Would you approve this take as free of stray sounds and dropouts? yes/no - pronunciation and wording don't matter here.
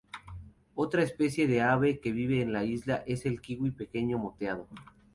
yes